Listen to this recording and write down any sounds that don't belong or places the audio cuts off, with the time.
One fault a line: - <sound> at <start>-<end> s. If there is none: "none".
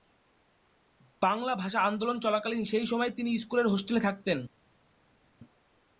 none